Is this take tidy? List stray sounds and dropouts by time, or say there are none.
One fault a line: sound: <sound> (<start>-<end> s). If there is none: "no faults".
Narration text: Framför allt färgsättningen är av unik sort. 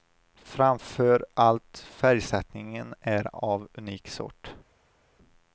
no faults